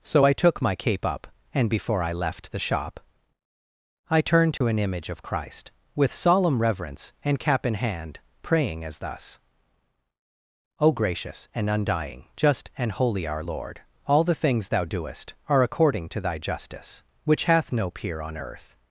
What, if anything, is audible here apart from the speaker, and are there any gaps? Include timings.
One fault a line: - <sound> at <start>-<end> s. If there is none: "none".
- dropout at 4.6-4.6 s